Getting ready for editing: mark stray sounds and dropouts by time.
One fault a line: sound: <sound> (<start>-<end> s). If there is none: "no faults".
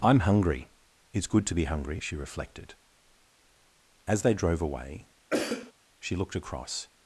sound: cough (5.3-5.7 s)